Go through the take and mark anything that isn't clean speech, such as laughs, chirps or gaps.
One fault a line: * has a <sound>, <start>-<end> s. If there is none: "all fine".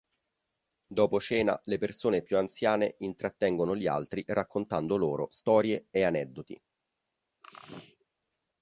* has a sneeze, 7.4-8.1 s